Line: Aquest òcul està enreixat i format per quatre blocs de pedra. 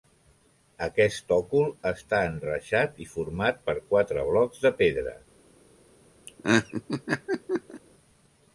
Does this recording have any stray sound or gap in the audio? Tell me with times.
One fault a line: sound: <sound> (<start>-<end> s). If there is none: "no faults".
sound: laugh (6.3-7.8 s)